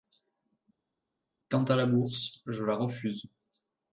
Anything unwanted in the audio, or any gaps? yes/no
no